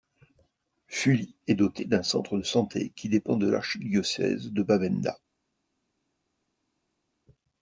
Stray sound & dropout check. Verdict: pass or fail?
pass